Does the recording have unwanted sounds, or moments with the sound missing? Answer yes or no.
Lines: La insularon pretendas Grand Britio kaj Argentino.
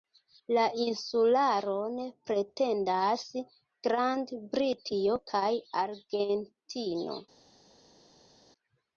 no